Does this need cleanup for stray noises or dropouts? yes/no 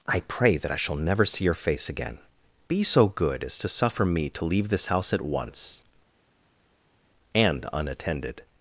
no